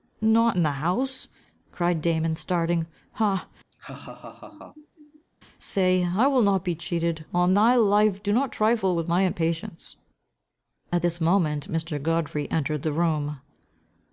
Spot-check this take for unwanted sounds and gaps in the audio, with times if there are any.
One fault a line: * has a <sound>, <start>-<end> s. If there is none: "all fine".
* has a laugh, 3.7-5.3 s